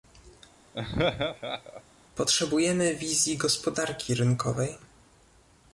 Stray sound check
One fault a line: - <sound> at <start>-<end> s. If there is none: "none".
- laugh at 0.7-1.8 s